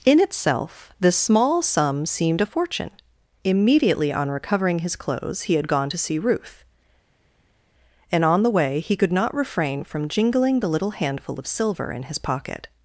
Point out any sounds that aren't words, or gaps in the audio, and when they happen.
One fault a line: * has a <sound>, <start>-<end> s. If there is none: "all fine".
all fine